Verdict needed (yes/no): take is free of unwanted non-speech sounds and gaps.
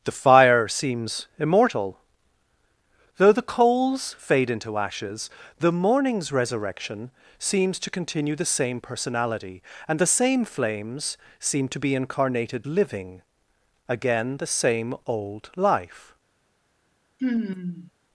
no